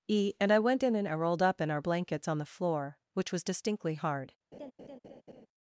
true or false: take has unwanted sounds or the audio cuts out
true